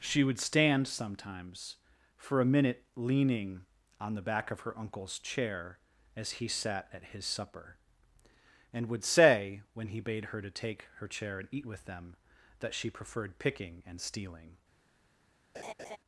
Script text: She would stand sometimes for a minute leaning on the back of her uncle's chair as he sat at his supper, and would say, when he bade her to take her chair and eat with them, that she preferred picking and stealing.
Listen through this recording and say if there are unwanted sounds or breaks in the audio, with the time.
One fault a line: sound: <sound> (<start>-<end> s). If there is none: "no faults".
sound: laugh (15.5-16.0 s)